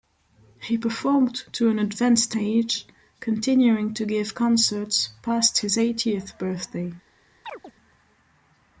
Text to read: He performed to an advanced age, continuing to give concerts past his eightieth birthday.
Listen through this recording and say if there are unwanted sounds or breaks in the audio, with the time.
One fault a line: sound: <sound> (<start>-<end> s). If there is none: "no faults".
sound: chirp (7.4-7.7 s)